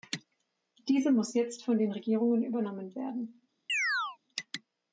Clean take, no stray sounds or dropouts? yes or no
no